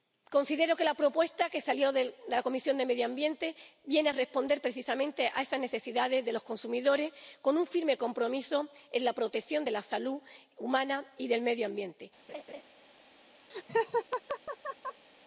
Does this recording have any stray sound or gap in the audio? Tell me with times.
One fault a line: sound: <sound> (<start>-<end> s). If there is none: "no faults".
sound: laugh (12.3-12.6 s)
sound: laugh (13.5-15.1 s)